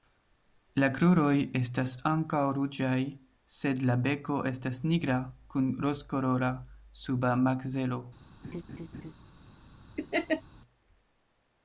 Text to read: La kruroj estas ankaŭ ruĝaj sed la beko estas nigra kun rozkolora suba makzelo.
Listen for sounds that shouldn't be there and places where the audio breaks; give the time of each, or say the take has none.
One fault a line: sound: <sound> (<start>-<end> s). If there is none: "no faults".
sound: laugh (8.4-9.1 s)
sound: laugh (10.0-10.4 s)